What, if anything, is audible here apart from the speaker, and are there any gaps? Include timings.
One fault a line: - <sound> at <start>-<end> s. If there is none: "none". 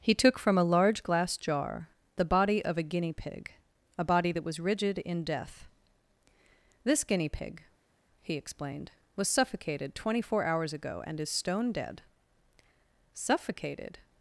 none